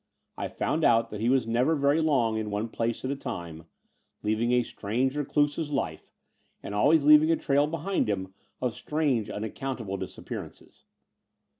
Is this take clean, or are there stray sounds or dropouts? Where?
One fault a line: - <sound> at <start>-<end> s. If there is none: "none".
none